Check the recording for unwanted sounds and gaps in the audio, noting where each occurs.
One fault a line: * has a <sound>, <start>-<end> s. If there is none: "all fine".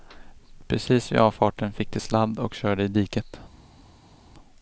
all fine